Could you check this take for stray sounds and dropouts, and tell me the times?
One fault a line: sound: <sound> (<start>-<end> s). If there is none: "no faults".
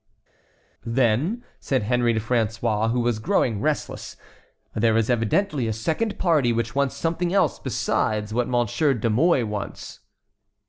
no faults